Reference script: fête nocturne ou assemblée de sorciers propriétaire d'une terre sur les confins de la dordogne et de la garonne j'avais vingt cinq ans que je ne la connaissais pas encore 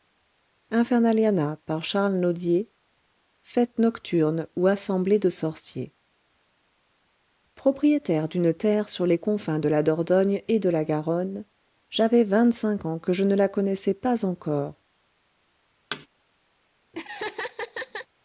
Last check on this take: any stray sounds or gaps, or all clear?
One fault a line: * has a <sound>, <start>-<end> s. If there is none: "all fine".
* has a thud, 15.9-16.1 s
* has a laugh, 16.9-18.1 s